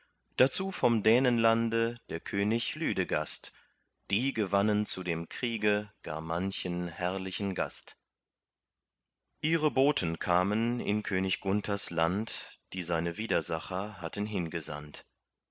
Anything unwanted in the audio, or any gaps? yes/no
no